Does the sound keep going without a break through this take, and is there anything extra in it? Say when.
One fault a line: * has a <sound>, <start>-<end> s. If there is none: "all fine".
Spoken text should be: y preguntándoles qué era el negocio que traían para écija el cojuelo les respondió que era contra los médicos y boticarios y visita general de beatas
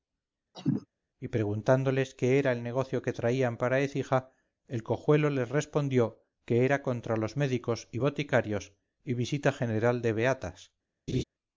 * has a cough, 0.5-0.9 s
* has a laugh, 11.1-11.2 s